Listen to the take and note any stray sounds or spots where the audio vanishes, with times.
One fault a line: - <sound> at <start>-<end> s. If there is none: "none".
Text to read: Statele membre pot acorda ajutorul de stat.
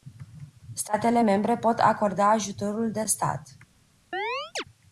- chirp at 4.1-4.6 s